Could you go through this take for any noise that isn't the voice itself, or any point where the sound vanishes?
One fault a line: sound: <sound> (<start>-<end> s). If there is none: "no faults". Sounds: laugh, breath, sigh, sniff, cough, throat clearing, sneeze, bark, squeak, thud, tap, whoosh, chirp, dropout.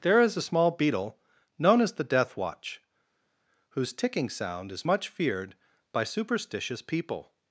no faults